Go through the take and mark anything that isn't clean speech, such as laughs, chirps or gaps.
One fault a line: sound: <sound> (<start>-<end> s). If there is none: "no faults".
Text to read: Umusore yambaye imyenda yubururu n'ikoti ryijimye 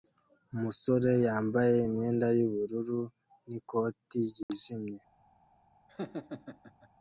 sound: dropout (4.4-4.5 s)
sound: laugh (5.9-6.9 s)